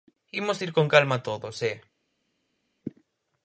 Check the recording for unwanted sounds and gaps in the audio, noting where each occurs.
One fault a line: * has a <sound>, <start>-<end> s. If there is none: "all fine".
all fine